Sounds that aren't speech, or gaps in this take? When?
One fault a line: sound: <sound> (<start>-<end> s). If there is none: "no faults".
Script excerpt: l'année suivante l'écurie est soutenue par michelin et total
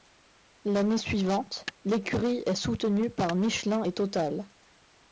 no faults